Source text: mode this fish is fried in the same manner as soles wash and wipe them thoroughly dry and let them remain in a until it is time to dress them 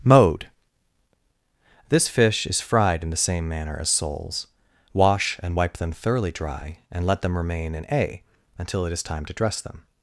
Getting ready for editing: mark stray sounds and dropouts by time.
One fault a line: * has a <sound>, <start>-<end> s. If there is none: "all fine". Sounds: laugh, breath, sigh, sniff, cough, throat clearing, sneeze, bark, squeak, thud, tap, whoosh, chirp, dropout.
all fine